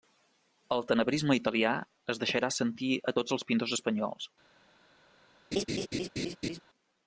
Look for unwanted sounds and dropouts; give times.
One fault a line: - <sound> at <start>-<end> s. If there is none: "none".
- laugh at 5.5-6.6 s